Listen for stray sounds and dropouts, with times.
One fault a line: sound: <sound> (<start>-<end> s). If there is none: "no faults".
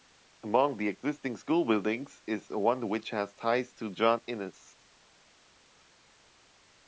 no faults